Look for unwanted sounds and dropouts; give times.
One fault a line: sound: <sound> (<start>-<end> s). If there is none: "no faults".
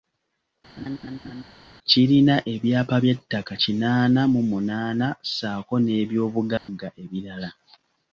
sound: laugh (0.8-1.4 s)
sound: dropout (6.6-6.7 s)